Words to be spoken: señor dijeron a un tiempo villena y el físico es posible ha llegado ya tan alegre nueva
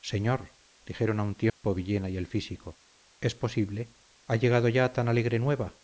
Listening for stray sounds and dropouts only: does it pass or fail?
fail